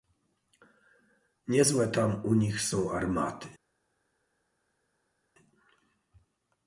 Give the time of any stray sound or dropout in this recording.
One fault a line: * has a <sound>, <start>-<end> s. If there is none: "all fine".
all fine